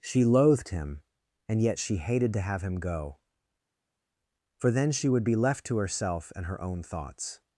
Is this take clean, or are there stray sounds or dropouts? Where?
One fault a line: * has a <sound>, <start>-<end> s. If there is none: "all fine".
all fine